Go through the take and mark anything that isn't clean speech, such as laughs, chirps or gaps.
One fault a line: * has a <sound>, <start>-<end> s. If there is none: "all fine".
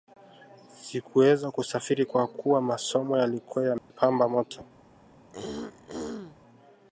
* has a dropout, 3.8-3.9 s
* has a throat clearing, 5.3-6.4 s